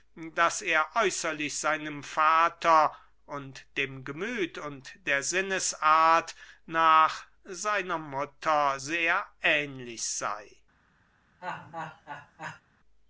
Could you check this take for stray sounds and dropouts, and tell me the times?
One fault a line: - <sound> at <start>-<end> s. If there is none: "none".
- laugh at 11.4-12.6 s